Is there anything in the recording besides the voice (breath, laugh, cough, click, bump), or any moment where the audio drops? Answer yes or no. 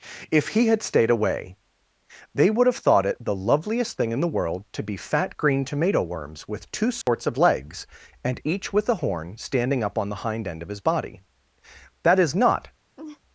yes